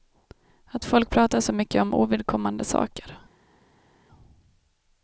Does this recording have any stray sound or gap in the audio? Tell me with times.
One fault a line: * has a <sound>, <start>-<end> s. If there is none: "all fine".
all fine